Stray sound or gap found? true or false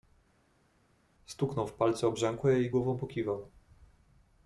false